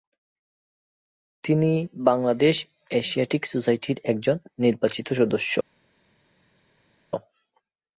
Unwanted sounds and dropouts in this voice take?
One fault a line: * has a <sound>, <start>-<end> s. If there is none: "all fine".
all fine